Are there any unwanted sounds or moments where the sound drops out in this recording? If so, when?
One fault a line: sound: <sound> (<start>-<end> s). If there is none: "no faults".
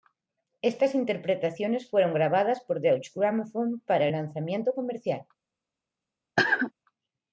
sound: cough (6.4-6.7 s)